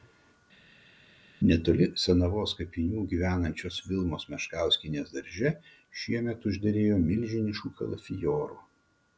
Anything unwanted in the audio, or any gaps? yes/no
no